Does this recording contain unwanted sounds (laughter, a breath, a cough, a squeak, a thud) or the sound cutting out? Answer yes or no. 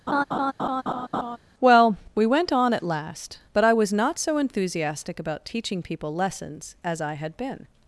yes